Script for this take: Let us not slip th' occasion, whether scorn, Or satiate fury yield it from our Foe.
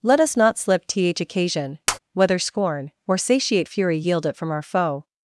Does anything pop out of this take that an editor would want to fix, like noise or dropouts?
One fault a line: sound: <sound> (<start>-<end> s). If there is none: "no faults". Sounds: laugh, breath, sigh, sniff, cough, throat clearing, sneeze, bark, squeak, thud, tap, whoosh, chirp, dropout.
sound: tap (1.9-2.0 s)